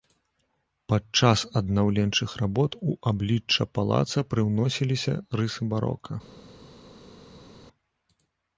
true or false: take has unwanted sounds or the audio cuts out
false